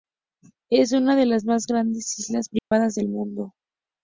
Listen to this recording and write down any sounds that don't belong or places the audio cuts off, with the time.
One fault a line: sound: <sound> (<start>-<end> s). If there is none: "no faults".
sound: dropout (2.6-2.7 s)